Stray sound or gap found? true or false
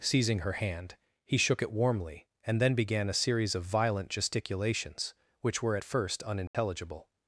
true